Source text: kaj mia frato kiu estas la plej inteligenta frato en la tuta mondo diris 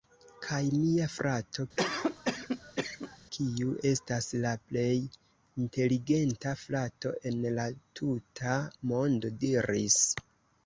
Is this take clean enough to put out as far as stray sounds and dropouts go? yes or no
no